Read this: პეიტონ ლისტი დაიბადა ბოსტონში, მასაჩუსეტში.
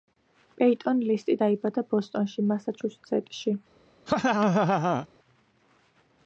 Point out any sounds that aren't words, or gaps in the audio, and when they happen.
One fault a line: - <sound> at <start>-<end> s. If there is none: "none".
- laugh at 4.1-5.1 s